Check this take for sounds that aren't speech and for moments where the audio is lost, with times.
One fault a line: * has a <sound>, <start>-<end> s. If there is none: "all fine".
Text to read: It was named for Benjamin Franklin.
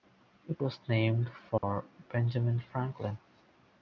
* has a dropout, 1.6-1.6 s